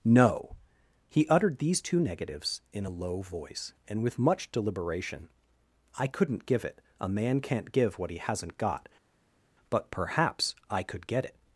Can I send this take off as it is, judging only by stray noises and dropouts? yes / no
yes